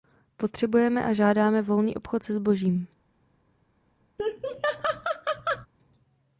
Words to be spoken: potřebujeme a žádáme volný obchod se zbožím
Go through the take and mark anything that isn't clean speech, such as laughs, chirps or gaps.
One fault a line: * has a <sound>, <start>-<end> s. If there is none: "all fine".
* has a laugh, 4.2-5.7 s